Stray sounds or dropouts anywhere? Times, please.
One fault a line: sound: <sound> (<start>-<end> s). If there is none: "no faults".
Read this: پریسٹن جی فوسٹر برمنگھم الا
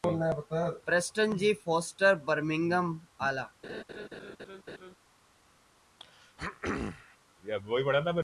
sound: laugh (3.6-4.9 s)
sound: throat clearing (6.0-7.2 s)